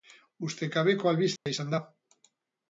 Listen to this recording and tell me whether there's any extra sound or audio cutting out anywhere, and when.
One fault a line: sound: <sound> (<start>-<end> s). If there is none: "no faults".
sound: dropout (1.4-1.5 s)